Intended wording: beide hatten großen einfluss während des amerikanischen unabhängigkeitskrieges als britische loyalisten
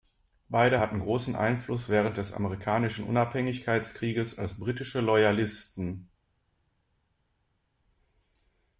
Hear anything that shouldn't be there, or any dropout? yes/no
no